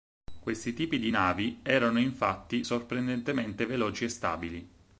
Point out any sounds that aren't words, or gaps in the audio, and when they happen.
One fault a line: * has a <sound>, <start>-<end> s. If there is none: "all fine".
all fine